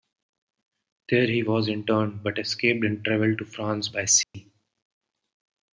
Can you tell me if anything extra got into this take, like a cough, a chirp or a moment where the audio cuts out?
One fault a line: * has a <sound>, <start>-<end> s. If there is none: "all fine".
* has a dropout, 4.2-4.3 s